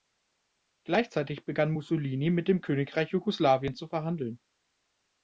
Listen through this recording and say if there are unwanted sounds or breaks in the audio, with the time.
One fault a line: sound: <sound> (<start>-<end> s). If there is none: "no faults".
no faults